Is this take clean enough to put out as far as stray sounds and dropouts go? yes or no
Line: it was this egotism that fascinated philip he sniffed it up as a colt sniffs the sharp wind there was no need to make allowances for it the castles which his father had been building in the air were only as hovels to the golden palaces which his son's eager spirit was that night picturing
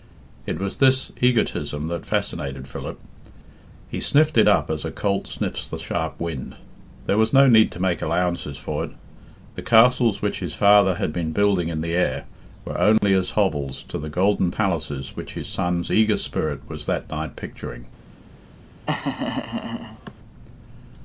no